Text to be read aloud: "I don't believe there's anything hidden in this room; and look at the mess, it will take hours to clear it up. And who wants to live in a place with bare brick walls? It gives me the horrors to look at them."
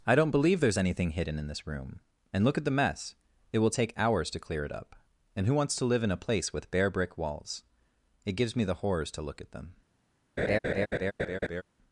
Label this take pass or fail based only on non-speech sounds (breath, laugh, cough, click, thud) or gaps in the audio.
fail